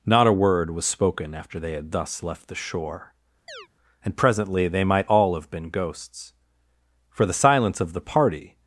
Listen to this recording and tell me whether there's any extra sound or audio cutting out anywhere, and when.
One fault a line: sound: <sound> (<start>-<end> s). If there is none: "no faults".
sound: chirp (3.5-3.7 s)